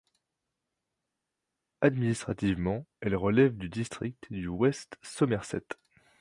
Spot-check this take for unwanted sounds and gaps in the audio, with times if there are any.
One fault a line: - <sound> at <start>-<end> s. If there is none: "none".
none